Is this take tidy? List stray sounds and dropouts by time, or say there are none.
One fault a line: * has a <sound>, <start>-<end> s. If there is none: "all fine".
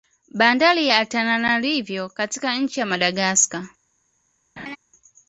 * has a laugh, 4.6-4.8 s